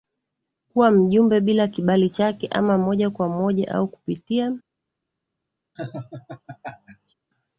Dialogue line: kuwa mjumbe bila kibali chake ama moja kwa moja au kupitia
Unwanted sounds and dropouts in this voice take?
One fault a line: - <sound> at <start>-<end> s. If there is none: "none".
- laugh at 5.8-7.1 s